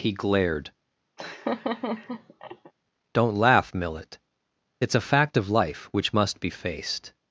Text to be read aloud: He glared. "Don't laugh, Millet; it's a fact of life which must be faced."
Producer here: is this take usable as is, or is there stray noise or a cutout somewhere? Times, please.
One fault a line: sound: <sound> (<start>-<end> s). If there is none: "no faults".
sound: laugh (1.2-2.7 s)